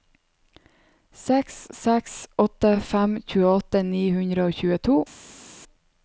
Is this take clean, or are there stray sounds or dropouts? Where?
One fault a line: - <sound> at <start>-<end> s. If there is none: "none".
none